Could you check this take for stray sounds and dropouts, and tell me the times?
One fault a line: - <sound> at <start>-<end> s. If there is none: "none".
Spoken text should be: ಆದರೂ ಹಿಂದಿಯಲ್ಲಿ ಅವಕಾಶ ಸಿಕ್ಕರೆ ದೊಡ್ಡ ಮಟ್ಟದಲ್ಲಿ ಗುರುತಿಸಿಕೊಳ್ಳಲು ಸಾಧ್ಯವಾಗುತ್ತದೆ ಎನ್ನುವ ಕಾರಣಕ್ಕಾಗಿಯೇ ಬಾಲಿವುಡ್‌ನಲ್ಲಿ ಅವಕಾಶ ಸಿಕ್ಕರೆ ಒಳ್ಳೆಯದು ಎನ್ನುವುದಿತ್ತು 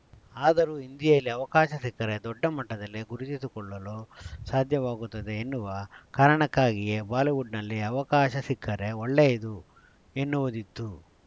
none